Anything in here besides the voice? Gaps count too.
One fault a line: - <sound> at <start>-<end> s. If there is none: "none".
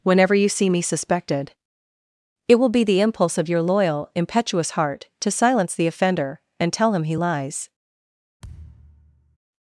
- thud at 8.4-9.4 s